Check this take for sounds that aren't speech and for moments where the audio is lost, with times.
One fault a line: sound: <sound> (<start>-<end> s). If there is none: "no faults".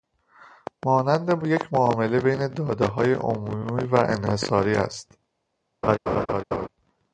sound: laugh (5.8-6.7 s)